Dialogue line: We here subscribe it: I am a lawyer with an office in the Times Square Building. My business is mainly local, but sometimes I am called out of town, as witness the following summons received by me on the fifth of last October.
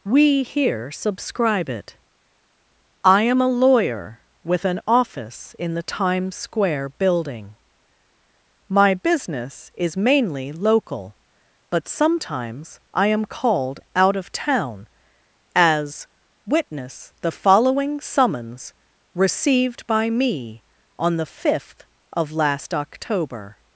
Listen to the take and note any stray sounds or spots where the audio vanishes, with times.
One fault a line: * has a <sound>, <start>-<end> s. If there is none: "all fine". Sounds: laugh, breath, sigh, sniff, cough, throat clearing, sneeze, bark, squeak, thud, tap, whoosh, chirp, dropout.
all fine